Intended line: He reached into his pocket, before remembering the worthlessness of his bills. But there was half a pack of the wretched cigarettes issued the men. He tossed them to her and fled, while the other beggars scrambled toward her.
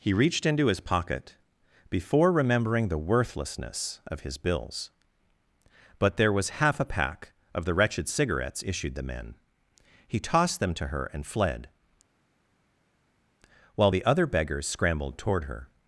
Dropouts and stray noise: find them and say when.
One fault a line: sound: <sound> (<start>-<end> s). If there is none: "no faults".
no faults